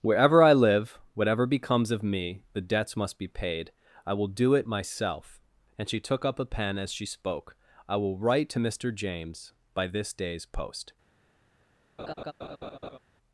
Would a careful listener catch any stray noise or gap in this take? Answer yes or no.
yes